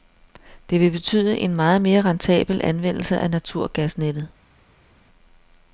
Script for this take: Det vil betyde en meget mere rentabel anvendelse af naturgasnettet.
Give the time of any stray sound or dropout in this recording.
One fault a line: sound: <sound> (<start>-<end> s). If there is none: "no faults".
no faults